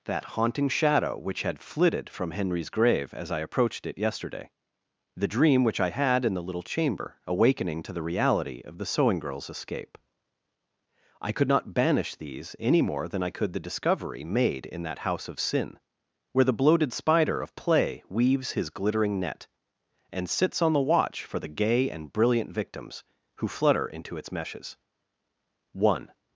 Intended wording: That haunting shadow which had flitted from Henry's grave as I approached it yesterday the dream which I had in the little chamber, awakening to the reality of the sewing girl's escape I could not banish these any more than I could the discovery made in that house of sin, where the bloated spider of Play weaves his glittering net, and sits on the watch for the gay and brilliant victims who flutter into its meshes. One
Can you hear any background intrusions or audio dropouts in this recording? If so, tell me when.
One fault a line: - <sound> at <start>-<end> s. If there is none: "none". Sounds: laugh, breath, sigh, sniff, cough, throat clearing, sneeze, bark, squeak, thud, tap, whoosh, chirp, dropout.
none